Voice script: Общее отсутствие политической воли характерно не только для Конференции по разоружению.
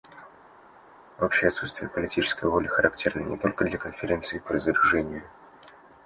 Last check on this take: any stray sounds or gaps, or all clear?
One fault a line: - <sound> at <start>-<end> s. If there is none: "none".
none